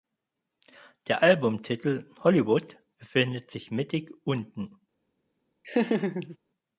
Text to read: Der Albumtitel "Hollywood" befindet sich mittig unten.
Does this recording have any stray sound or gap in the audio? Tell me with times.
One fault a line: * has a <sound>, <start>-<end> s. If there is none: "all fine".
* has a laugh, 5.6-6.4 s